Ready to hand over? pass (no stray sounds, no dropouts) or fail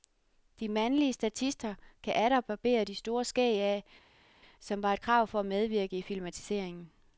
pass